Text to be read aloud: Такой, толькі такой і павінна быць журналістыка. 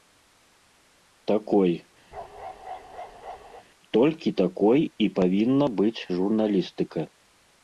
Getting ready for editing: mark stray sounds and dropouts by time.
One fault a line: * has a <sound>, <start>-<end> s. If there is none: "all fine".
* has a bark, 2.1-3.7 s